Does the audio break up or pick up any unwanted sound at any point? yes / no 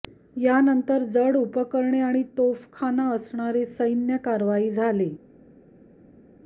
no